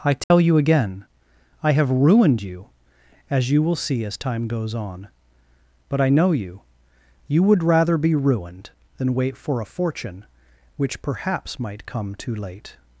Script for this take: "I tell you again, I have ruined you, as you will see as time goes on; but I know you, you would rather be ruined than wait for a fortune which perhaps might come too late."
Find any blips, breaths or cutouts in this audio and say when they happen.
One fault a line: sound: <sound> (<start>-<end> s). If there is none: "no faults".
sound: dropout (0.2-0.3 s)